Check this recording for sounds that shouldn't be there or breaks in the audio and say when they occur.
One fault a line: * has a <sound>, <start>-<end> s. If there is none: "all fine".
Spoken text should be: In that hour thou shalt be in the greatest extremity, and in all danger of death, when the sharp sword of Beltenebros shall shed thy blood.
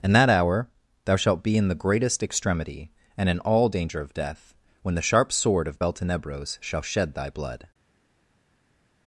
all fine